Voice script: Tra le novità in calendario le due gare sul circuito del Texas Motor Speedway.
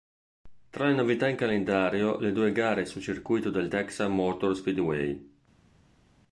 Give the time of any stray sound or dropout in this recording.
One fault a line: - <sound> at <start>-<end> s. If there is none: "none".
none